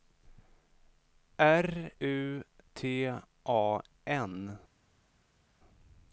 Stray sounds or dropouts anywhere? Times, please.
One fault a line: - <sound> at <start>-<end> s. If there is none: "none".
none